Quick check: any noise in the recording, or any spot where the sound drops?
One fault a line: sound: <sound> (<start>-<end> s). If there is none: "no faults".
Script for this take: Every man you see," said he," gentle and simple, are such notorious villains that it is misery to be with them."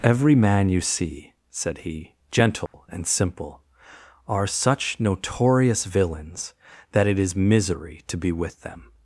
sound: dropout (2.7-2.7 s)